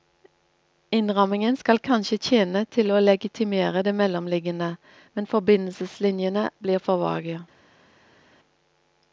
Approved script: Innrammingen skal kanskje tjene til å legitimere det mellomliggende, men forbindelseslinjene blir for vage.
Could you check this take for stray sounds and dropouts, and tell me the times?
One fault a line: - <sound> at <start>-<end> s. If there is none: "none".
none